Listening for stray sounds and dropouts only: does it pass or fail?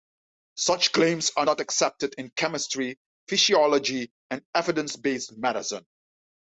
pass